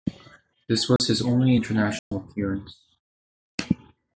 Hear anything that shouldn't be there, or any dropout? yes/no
yes